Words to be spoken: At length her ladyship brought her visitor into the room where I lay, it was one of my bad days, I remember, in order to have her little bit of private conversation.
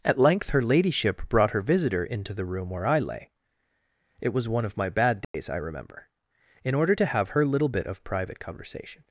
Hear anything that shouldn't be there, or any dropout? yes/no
yes